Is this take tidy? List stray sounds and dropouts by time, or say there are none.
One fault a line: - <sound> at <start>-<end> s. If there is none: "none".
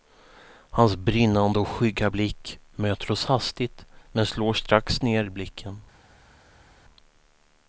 none